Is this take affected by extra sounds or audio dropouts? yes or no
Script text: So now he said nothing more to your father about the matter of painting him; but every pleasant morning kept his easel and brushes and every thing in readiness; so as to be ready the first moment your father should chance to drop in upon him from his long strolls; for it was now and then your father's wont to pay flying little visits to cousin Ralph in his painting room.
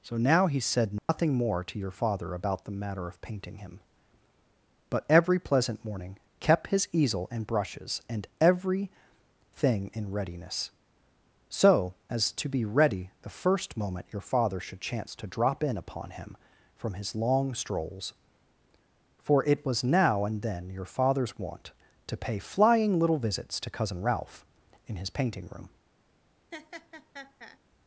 yes